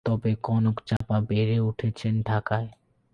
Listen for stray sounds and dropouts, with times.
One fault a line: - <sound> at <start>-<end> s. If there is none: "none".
- dropout at 1.0-1.0 s